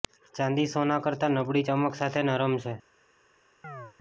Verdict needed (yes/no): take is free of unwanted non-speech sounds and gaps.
no